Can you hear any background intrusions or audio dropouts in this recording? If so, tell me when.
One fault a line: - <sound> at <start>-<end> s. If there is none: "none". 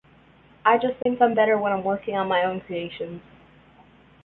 - dropout at 1.0-1.1 s